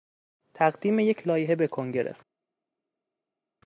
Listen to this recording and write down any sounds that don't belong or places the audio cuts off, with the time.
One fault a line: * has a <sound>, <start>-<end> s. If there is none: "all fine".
all fine